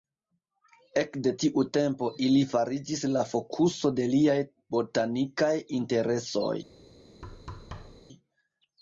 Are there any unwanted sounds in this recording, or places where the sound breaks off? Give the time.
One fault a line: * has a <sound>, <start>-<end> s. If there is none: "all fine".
* has a thud, 7.2-8.0 s